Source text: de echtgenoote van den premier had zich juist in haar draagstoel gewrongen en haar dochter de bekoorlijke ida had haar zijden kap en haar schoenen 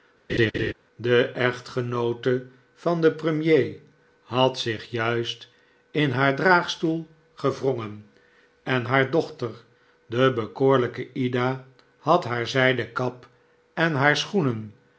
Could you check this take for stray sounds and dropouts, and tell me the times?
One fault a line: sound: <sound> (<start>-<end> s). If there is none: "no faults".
sound: laugh (0.3-0.7 s)